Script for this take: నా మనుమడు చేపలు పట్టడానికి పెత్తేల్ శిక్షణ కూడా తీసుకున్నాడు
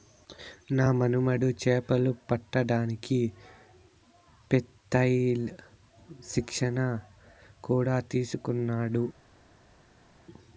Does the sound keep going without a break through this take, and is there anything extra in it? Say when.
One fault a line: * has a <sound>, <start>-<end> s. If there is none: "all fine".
all fine